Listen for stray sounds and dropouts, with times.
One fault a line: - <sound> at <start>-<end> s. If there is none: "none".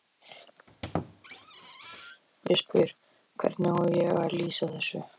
- squeak at 0.7-2.2 s